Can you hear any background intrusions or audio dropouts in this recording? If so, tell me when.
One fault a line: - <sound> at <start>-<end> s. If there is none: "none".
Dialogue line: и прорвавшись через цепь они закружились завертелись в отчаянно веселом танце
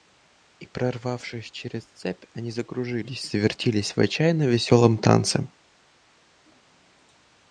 none